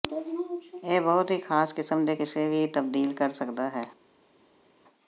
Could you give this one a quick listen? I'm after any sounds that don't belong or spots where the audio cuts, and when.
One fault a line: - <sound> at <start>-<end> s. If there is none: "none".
none